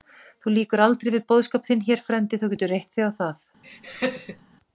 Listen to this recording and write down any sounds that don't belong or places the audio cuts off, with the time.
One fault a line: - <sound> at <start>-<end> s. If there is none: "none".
- laugh at 3.6-4.4 s